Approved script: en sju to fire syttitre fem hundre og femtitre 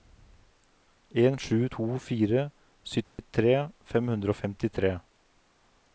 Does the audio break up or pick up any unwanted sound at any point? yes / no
yes